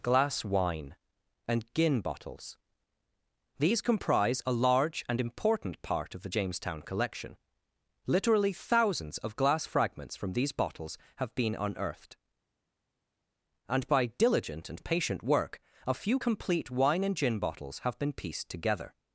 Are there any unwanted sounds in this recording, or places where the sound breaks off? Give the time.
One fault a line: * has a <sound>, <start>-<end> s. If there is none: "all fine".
all fine